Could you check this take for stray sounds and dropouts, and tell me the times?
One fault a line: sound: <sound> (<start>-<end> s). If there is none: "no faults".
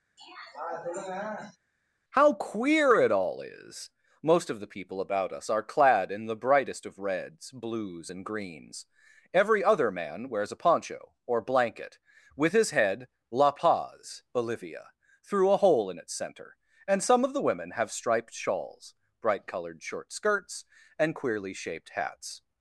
sound: throat clearing (0.2-1.6 s)